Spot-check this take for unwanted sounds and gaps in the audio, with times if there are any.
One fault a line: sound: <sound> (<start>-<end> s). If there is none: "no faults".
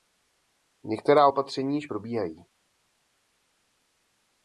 no faults